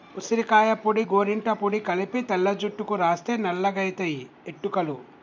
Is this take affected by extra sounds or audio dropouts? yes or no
no